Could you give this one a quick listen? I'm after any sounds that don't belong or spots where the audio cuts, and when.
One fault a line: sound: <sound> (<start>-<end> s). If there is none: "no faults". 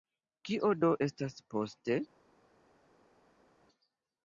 no faults